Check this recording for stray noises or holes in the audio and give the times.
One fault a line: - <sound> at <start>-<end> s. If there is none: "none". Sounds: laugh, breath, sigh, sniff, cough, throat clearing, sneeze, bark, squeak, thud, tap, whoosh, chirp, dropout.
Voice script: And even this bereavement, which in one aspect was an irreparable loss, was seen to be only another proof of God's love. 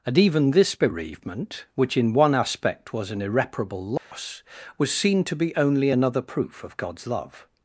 - dropout at 4.0-4.1 s